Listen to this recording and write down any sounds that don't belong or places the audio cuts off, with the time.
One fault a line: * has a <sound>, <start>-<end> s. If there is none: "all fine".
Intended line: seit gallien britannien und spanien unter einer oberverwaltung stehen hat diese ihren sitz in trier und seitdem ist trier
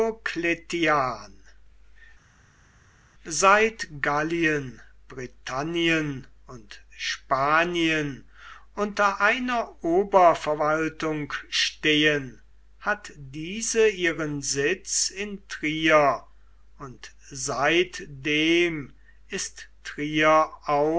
all fine